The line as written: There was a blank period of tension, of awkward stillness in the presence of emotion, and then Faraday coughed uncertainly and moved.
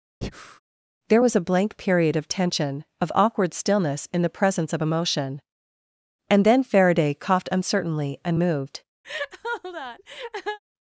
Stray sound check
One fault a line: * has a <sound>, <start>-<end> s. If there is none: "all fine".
* has a breath, 0.2-0.6 s
* has a laugh, 9.0-10.6 s